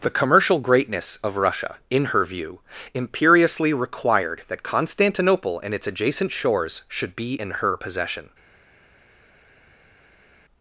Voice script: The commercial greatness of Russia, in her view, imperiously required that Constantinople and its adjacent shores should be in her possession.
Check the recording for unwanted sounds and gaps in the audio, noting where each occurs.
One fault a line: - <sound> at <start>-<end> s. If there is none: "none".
none